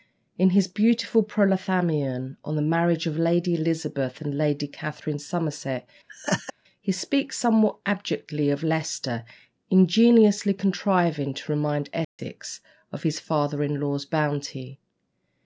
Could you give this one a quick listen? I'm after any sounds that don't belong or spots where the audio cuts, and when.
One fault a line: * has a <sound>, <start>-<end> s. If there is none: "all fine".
* has a laugh, 6.1-6.5 s
* has a dropout, 12.0-12.2 s